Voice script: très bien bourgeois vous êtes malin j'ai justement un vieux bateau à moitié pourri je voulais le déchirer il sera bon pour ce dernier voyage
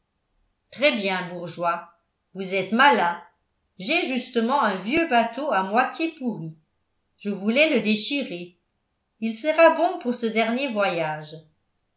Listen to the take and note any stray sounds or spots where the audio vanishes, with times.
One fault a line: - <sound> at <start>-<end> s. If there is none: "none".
none